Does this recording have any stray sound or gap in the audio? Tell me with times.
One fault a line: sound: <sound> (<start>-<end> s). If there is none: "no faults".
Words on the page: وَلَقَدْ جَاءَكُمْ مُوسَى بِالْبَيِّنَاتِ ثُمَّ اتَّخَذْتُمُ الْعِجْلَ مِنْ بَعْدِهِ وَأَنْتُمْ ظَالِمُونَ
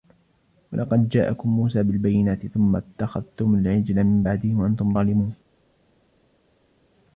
no faults